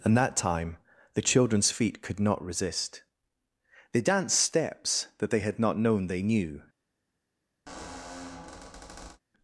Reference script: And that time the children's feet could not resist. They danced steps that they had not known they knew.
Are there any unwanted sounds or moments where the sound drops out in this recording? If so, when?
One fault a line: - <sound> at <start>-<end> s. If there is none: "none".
- squeak at 7.7-9.2 s